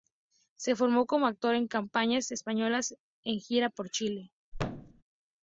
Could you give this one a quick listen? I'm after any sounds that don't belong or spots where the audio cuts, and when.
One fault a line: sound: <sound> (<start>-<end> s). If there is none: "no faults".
sound: thud (4.5-5.0 s)